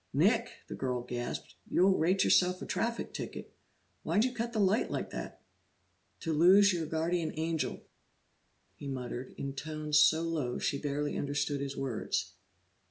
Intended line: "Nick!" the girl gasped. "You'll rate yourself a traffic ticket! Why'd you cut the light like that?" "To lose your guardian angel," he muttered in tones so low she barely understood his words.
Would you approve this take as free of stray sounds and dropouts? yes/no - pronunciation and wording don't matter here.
yes